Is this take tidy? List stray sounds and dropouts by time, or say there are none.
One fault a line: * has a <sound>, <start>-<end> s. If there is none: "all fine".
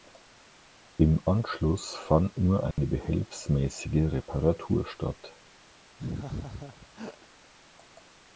* has a dropout, 2.7-2.8 s
* has a laugh, 6.0-7.3 s